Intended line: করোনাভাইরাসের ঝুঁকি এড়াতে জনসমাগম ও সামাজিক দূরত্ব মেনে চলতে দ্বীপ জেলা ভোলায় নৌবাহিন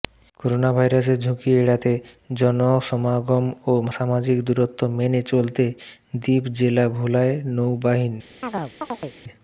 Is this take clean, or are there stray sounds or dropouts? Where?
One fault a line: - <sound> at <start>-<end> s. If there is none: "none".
- chirp at 8.4-9.2 s